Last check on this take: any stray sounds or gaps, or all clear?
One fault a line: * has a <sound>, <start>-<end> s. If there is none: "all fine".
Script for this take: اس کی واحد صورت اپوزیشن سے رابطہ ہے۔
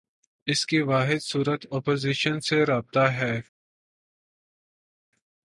all fine